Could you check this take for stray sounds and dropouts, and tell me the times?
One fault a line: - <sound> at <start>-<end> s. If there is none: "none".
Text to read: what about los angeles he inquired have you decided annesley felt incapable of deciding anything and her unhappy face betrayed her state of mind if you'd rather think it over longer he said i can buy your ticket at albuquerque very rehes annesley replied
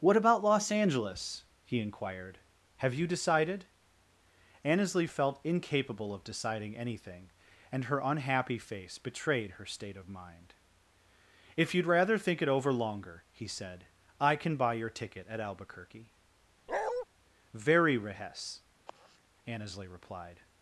- bark at 16.7-17.1 s
- sigh at 18.9-19.2 s